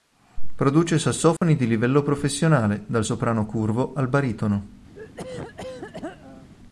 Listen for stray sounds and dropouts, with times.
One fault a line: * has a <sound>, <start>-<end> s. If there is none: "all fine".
* has a dropout, 1.4-1.4 s
* has a throat clearing, 4.9-6.5 s